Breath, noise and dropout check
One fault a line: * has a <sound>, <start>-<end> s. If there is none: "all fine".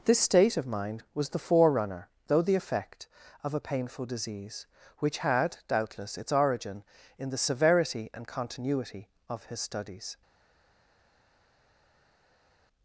all fine